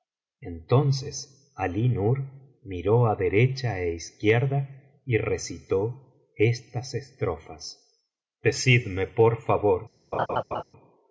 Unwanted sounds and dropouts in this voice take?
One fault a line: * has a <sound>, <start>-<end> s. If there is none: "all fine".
* has a laugh, 10.1-10.6 s